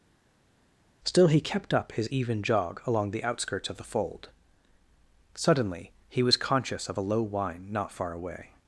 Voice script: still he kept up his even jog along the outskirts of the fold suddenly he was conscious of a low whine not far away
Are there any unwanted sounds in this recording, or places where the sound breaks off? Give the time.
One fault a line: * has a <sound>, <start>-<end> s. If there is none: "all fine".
all fine